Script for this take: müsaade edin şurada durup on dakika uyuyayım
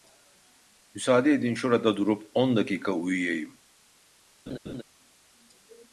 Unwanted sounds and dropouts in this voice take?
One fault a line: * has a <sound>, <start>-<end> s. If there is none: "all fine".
* has a laugh, 4.5-4.8 s